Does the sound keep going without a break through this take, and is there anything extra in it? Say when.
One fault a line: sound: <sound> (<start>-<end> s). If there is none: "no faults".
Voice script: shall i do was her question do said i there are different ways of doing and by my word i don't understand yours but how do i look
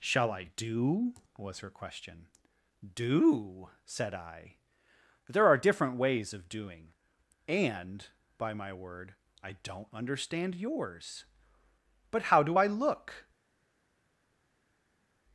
no faults